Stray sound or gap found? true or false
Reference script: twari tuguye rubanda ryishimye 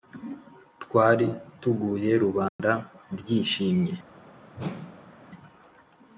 true